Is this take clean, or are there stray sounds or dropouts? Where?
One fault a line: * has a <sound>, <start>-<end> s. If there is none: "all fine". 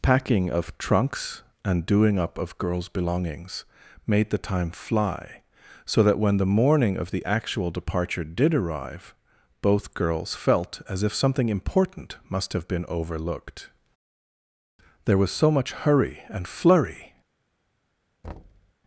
* has a thud, 18.2-18.7 s